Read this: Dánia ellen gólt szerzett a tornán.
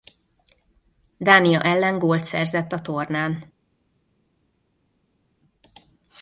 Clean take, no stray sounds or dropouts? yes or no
yes